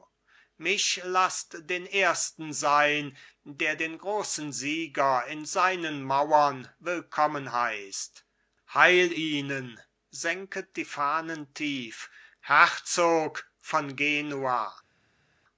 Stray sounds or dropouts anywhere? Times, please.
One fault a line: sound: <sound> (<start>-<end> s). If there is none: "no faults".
no faults